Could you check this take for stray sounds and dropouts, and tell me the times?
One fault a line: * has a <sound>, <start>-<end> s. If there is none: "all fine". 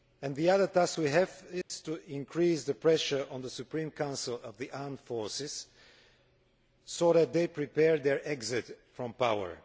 * has a dropout, 1.6-1.7 s